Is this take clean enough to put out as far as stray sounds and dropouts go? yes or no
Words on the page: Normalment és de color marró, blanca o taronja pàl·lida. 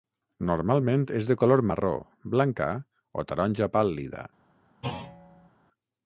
no